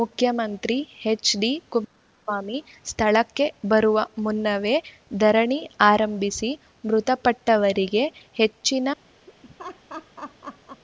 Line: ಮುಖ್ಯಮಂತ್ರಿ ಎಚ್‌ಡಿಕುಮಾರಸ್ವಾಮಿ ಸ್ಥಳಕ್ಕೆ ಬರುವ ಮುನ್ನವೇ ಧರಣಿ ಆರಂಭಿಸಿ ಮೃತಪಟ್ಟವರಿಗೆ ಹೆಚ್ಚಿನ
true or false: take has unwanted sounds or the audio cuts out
true